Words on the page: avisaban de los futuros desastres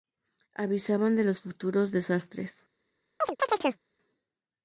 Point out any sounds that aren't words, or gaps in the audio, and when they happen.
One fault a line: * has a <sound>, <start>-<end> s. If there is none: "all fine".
* has a chirp, 3.2-3.8 s